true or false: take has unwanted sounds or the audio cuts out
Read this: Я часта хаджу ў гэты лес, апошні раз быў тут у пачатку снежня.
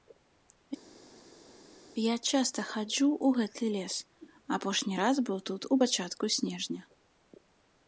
false